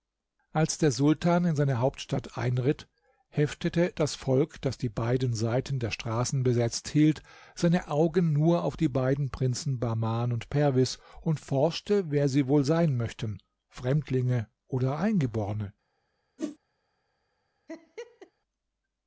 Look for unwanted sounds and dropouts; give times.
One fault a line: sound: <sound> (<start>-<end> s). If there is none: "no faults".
sound: whoosh (16.4-16.6 s)
sound: laugh (17.7-18.3 s)